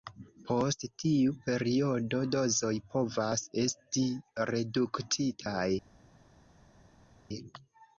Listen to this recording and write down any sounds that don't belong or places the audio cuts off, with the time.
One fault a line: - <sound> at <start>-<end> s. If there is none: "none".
none